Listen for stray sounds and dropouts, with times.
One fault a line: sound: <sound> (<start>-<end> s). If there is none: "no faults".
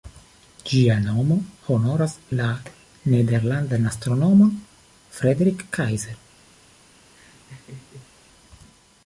sound: laugh (7.1-8.1 s)